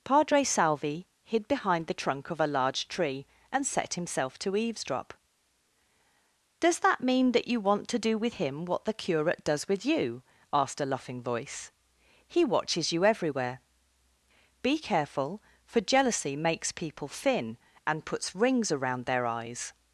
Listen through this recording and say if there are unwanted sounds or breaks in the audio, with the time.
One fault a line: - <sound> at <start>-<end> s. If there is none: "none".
none